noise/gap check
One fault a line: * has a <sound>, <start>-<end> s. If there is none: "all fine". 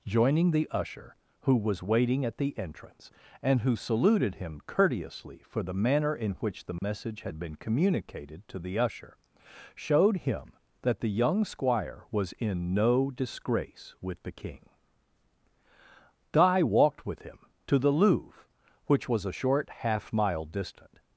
* has a dropout, 6.8-6.8 s